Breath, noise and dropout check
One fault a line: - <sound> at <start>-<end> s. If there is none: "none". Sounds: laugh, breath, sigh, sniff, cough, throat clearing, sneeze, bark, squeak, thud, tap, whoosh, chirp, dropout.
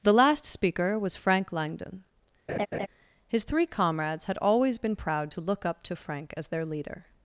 - laugh at 2.5-2.9 s